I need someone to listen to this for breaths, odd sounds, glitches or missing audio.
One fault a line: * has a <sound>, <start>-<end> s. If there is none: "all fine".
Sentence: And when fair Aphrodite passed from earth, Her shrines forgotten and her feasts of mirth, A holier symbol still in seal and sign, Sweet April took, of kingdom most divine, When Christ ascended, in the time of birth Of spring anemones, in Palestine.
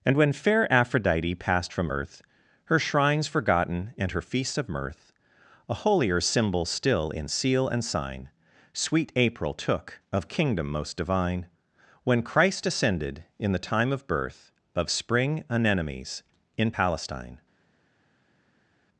all fine